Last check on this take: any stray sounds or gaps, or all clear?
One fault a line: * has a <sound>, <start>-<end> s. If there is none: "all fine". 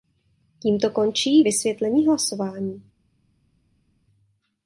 all fine